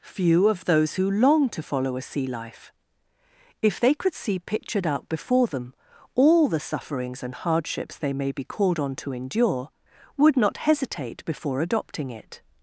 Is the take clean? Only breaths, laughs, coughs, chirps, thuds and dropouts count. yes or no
yes